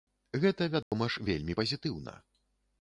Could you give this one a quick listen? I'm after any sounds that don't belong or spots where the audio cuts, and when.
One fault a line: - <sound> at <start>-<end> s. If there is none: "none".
- dropout at 0.8-0.9 s